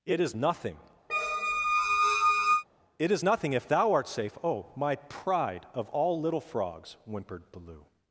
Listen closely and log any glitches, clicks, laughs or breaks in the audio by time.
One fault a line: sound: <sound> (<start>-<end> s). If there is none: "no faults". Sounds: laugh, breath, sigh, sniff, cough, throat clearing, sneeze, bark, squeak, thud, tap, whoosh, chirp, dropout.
sound: squeak (1.1-2.6 s)